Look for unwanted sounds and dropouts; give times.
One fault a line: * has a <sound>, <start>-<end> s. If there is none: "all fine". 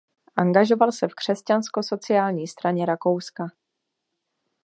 all fine